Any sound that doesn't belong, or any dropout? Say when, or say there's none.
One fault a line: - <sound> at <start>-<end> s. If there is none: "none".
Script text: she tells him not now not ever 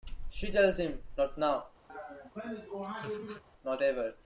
- laugh at 1.9-3.4 s